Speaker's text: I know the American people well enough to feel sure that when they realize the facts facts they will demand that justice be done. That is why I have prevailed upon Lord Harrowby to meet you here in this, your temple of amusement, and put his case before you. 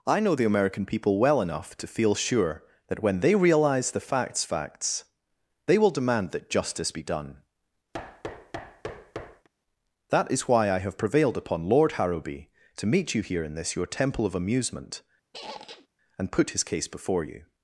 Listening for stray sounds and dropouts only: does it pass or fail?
fail